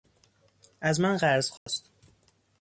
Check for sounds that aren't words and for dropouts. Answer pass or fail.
fail